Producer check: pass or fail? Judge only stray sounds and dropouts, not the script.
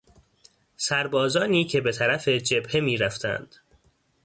pass